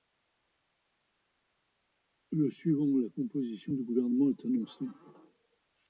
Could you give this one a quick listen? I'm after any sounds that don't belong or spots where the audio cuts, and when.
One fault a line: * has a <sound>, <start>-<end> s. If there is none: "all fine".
all fine